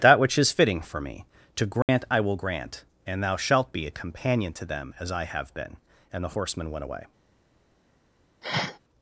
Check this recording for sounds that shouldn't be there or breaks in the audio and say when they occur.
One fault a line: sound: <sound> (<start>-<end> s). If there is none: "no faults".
sound: dropout (1.8-1.9 s)
sound: sniff (8.4-8.8 s)